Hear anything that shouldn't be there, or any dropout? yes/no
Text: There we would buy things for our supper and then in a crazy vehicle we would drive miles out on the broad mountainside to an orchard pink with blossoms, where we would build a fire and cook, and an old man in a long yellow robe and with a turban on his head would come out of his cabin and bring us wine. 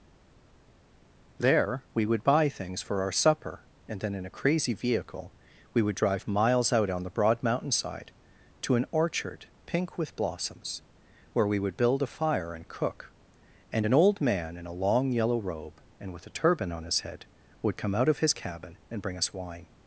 no